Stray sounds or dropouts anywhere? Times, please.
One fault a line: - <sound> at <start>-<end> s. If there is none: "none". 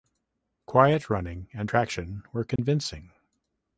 - dropout at 2.6-2.6 s